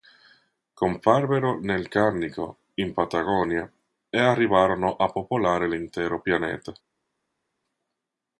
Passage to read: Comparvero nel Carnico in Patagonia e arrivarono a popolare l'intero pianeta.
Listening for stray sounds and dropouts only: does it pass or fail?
pass